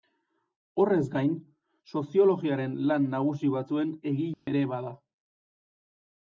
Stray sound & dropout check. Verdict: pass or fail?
fail